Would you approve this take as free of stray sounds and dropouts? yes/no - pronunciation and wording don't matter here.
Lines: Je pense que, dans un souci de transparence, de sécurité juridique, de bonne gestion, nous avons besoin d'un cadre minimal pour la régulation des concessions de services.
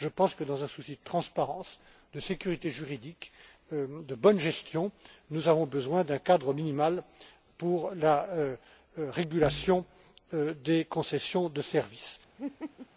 no